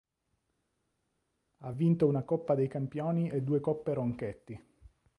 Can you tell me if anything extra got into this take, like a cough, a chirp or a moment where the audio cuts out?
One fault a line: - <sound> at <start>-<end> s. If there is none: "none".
none